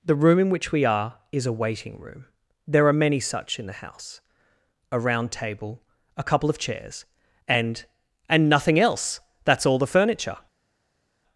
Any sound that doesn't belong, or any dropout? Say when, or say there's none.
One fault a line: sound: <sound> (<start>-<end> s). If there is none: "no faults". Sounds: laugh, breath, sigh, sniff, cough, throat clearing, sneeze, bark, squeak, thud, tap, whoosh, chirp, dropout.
no faults